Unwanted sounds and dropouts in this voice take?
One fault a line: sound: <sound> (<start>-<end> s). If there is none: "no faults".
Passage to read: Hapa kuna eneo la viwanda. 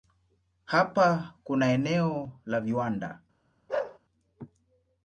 sound: bark (3.7-4.0 s)